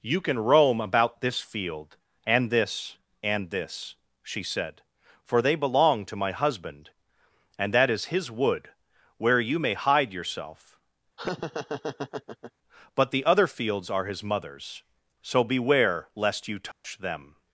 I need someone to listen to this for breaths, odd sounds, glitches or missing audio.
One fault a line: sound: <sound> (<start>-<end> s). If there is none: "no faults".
sound: laugh (11.2-12.5 s)
sound: dropout (16.7-16.8 s)